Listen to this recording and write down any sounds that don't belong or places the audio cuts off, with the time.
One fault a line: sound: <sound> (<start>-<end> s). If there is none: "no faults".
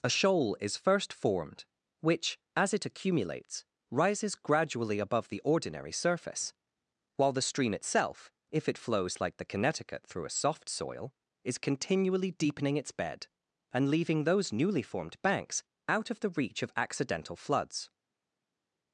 no faults